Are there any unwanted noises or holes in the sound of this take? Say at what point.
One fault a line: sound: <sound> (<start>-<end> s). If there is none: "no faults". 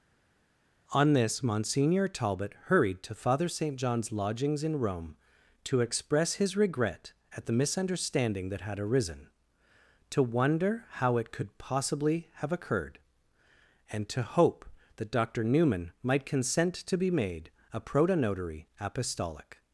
no faults